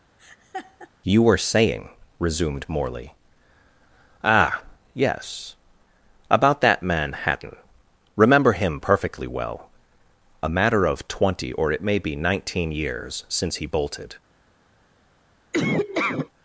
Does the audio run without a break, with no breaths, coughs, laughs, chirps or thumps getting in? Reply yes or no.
no